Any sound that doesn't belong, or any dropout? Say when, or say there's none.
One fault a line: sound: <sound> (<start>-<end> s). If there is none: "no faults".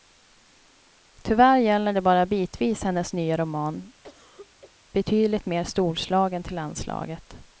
sound: cough (4.0-4.8 s)